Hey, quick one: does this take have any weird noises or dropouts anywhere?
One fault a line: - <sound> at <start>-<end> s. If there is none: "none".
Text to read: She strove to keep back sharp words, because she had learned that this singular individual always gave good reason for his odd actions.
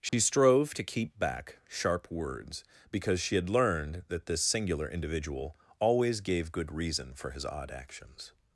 - dropout at 0.1-0.1 s